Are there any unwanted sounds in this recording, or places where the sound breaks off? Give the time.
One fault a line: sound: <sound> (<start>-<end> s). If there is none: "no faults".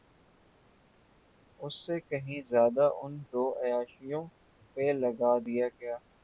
no faults